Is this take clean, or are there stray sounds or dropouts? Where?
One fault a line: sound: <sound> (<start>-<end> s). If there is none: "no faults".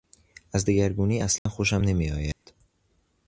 sound: dropout (1.4-1.5 s)
sound: dropout (2.3-2.5 s)